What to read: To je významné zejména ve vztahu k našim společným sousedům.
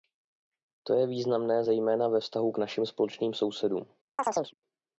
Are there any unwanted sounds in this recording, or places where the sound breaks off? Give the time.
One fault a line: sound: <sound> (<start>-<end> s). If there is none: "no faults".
sound: chirp (4.2-4.5 s)